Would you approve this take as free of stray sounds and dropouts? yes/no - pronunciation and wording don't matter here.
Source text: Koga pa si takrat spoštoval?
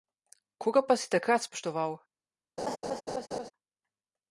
no